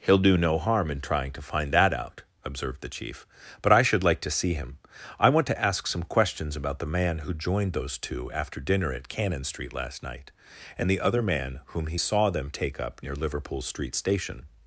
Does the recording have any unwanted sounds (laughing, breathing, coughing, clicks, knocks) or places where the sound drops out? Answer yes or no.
no